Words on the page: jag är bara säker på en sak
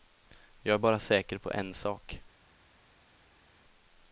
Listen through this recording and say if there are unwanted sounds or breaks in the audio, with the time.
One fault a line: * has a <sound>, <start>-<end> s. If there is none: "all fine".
all fine